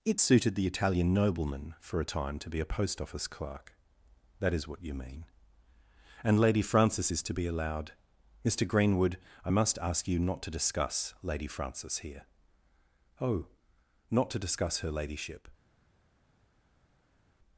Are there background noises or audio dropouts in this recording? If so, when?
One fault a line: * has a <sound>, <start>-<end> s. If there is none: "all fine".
all fine